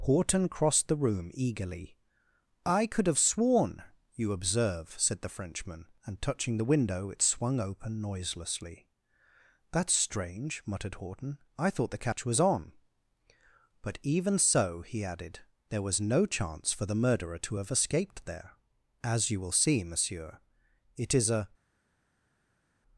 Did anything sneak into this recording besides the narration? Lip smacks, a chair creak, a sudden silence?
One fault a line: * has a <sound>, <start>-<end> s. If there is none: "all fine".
all fine